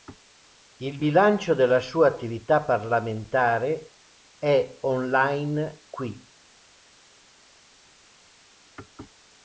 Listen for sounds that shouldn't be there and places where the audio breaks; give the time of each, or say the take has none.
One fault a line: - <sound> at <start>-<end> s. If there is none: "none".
none